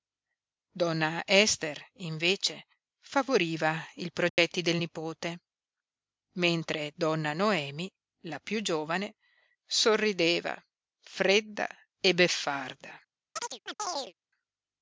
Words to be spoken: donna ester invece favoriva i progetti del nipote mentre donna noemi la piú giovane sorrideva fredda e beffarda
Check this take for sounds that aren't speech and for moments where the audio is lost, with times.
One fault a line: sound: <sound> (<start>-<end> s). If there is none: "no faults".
sound: dropout (4.3-4.4 s)
sound: chirp (13.4-14.1 s)